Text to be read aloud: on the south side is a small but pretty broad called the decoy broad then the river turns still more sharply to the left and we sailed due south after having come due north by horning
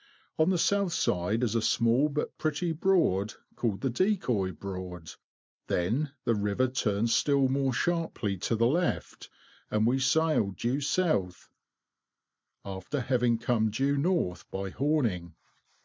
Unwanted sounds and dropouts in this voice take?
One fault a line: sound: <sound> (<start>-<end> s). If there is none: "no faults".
no faults